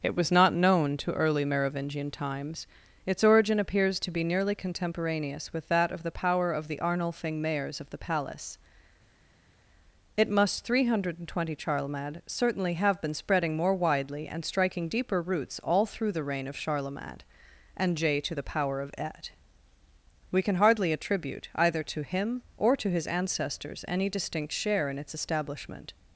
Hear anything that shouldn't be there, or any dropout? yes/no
no